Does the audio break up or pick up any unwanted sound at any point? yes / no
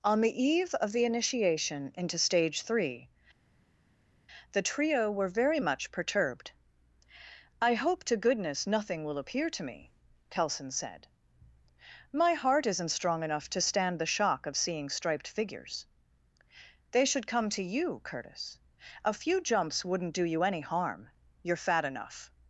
no